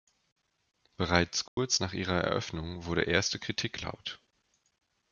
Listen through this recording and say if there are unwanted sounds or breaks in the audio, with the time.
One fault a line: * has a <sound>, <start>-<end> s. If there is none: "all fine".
* has a dropout, 1.5-1.6 s